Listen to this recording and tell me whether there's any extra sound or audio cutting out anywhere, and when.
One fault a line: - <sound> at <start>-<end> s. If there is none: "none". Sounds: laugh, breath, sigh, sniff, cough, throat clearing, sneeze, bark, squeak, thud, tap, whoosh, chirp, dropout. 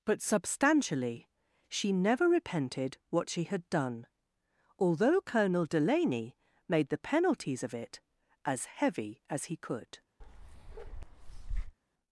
- bark at 10.2-11.8 s